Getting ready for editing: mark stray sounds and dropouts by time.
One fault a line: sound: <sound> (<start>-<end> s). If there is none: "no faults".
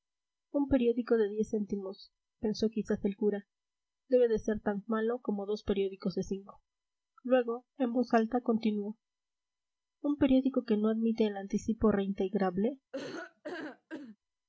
sound: laugh (12.9-14.2 s)